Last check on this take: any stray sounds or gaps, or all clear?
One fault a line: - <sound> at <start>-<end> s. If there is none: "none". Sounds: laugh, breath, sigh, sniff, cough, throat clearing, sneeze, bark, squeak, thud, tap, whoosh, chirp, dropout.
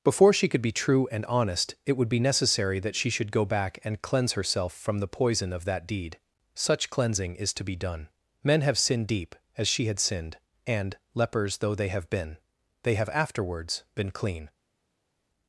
none